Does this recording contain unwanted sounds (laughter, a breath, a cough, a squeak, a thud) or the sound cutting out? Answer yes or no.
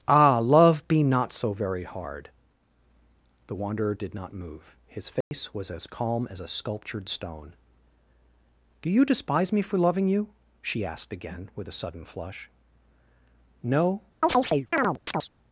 yes